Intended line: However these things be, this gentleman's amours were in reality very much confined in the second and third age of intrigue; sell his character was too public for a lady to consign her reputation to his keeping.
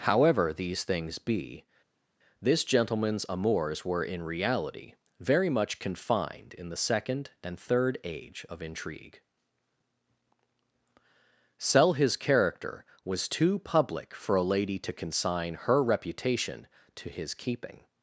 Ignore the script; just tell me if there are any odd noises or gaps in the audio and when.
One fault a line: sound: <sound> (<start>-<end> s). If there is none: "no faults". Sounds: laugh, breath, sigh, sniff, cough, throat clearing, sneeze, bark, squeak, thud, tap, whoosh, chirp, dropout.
no faults